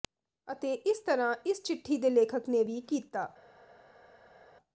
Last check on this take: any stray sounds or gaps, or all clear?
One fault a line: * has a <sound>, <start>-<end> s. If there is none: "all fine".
all fine